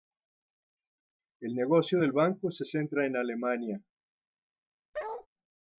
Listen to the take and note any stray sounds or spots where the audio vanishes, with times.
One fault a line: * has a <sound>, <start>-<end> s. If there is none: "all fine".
* has a bark, 4.9-5.3 s